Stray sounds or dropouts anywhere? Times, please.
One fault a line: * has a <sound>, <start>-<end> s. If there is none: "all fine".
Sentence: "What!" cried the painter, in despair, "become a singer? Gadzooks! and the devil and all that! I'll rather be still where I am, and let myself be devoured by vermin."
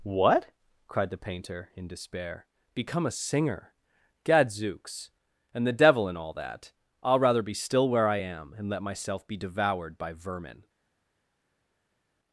all fine